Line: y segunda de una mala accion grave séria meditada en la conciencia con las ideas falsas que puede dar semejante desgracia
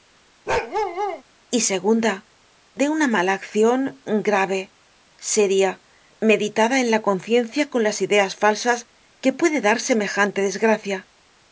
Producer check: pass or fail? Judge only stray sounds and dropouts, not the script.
fail